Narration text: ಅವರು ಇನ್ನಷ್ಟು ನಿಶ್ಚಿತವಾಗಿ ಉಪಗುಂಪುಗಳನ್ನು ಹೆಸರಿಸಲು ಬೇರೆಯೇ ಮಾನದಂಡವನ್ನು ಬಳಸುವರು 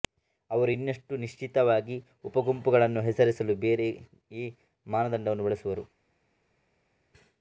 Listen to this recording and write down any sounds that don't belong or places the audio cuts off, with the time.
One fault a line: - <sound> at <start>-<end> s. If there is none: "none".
none